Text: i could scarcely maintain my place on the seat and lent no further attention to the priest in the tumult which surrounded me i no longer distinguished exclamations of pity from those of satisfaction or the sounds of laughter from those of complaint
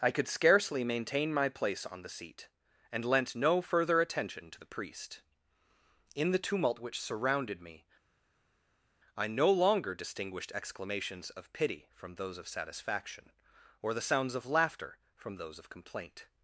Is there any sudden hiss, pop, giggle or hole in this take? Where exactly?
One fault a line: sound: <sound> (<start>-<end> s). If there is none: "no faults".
no faults